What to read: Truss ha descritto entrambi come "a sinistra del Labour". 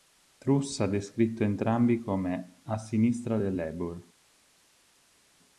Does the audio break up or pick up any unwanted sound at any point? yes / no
no